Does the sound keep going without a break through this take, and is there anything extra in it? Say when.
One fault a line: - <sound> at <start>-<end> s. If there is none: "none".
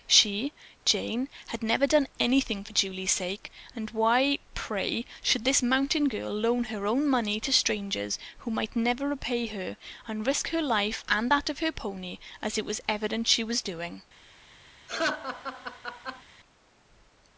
- laugh at 14.9-16.2 s